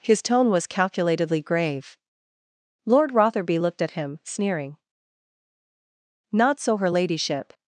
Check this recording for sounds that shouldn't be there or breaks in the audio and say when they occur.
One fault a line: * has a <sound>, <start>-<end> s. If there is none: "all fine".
all fine